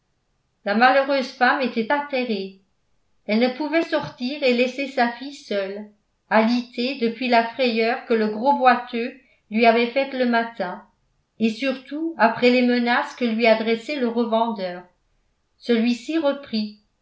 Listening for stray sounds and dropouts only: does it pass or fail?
pass